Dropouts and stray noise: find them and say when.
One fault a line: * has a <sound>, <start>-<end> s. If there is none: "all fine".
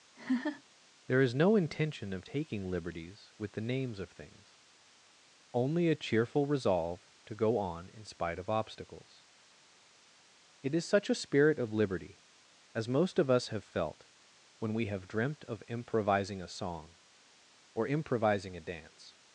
* has a laugh, 0.1-0.6 s